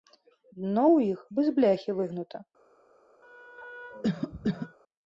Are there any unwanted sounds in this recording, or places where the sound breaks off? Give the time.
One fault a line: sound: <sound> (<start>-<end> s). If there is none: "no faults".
sound: cough (3.2-4.8 s)